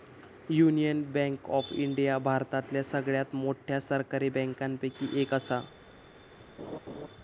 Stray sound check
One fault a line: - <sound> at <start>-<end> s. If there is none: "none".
- laugh at 6.6-7.1 s